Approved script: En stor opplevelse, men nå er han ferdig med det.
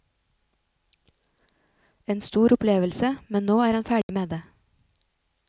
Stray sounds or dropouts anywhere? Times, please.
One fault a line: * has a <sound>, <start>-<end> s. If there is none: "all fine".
* has a dropout, 4.0-4.1 s